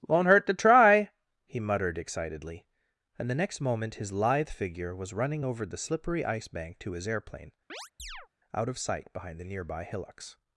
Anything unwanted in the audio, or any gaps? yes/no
yes